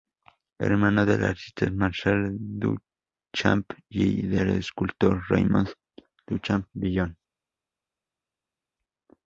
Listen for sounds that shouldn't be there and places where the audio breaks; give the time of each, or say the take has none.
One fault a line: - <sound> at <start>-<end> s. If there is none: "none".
none